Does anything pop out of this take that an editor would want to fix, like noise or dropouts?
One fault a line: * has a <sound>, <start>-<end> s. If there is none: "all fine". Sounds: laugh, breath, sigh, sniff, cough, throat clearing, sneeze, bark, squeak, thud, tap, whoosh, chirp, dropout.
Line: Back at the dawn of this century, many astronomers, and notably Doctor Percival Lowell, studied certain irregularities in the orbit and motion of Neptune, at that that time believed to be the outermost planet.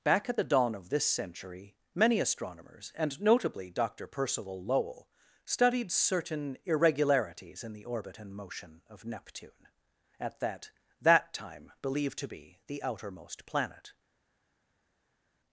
all fine